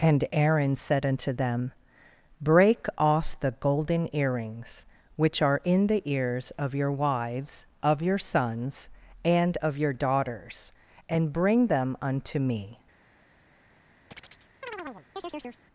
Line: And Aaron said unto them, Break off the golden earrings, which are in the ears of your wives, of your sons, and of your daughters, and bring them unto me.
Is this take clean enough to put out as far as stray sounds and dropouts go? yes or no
no